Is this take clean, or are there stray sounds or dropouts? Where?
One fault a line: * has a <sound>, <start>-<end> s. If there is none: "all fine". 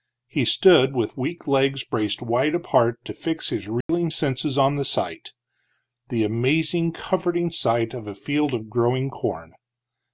* has a dropout, 3.8-3.9 s